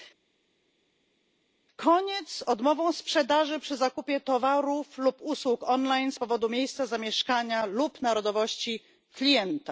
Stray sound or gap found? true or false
false